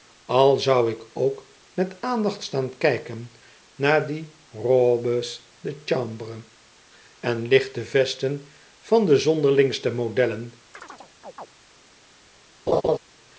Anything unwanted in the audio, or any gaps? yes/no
yes